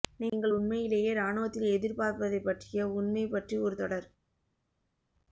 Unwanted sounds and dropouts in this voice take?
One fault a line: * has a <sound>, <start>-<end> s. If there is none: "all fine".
all fine